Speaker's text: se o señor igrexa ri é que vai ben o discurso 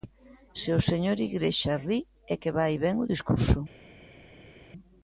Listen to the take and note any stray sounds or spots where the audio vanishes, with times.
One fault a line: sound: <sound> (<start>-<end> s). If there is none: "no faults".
no faults